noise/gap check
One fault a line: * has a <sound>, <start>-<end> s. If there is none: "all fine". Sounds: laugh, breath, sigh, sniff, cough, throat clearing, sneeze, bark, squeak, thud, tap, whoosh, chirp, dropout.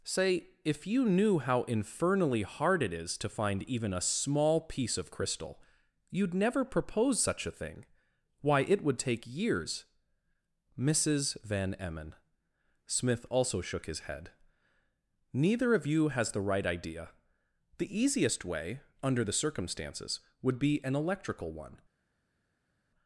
all fine